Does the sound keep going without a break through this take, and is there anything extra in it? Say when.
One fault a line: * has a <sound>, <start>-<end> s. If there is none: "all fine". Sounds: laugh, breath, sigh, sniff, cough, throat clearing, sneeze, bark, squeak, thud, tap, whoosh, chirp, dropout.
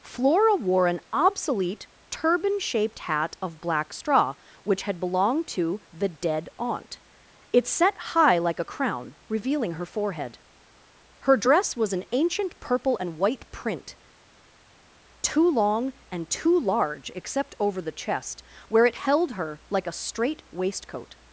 all fine